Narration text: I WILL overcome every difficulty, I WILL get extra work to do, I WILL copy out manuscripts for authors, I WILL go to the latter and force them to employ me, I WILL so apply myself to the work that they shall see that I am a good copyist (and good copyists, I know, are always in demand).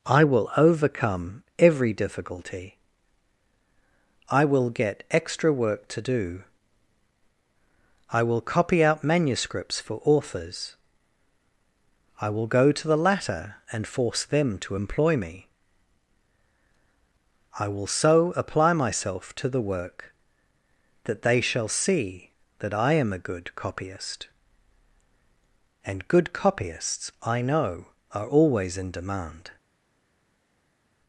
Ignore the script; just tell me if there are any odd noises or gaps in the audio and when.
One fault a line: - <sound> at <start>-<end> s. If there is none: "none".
none